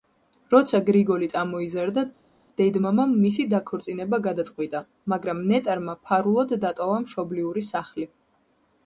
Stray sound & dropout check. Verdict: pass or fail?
pass